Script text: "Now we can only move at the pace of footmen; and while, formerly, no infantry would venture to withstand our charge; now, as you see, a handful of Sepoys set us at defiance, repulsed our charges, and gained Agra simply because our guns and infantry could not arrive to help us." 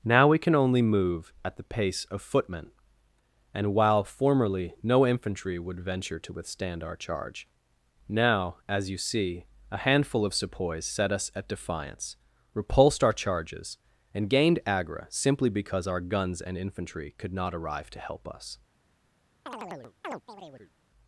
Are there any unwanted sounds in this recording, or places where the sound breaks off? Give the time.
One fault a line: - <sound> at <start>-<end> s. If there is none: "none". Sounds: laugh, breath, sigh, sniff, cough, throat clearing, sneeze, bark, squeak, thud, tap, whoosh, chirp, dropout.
- chirp at 19.5-20.7 s